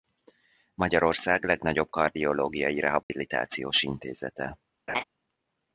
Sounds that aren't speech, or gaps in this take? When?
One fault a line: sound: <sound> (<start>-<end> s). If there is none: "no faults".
sound: dropout (3.0-3.1 s)
sound: laugh (4.9-5.0 s)